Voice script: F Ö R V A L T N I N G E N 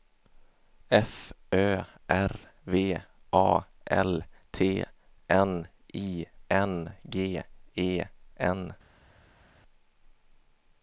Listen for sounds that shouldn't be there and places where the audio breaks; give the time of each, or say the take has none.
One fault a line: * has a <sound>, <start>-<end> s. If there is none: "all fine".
all fine